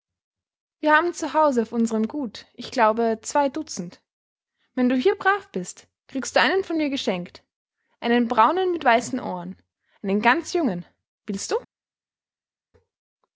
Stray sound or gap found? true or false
false